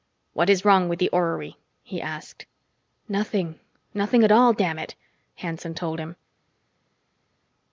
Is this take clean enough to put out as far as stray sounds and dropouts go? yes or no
yes